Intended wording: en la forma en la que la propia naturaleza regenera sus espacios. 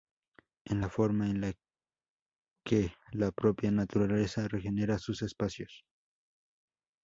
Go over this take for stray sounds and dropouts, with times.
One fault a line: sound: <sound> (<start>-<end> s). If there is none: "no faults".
no faults